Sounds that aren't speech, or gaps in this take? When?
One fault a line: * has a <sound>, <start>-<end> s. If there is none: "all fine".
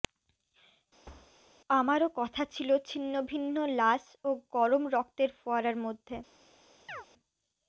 * has a thud, 1.1-1.4 s
* has a chirp, 6.9-7.1 s